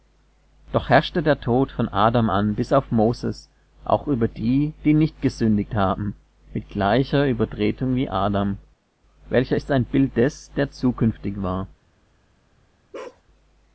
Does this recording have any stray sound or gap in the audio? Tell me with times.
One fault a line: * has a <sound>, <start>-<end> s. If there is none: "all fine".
* has a bark, 12.9-13.2 s